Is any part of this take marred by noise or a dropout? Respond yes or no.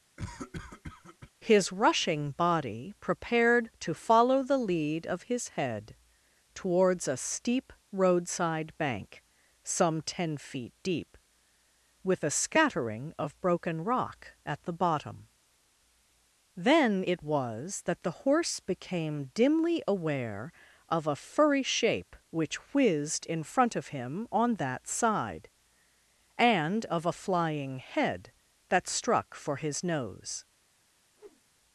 yes